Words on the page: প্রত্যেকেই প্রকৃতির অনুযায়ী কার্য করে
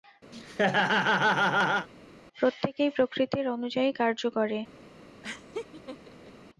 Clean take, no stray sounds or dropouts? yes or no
no